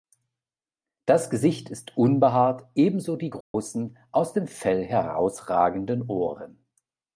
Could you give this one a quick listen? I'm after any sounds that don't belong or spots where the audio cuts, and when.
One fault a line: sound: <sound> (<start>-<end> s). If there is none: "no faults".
sound: dropout (3.4-3.5 s)